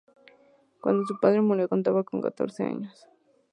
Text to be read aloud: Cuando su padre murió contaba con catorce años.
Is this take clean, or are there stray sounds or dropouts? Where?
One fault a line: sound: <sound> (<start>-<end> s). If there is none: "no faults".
no faults